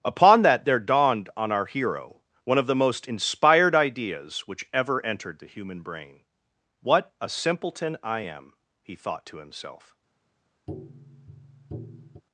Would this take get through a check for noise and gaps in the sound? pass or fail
fail